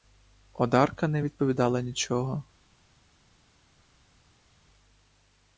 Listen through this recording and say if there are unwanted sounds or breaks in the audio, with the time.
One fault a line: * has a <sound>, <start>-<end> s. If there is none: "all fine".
all fine